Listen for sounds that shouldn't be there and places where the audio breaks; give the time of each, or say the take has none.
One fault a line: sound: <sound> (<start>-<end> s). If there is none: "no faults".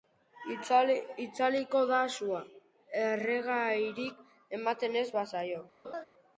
sound: laugh (5.8-6.0 s)